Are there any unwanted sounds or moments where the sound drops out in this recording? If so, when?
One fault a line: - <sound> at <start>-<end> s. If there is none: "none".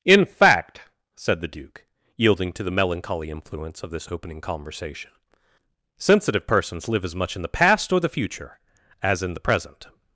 none